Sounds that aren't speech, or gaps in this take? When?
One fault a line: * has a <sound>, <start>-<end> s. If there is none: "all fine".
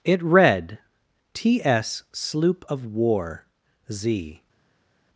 all fine